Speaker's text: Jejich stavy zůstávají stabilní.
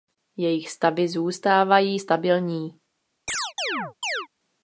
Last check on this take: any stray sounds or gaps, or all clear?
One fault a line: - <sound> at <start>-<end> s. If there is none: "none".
- chirp at 3.3-4.3 s